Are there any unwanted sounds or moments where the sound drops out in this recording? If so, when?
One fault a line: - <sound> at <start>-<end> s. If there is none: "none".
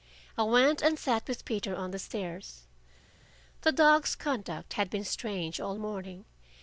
none